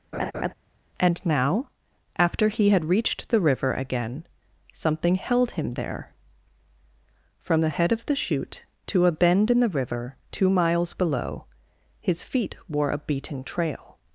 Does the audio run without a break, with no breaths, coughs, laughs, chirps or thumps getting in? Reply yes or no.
no